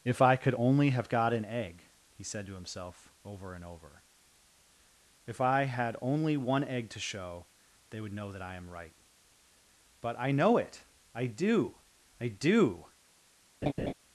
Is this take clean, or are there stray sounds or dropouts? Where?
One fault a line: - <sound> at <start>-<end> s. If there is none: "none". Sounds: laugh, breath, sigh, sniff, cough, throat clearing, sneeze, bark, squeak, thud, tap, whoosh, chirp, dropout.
- laugh at 13.6-13.9 s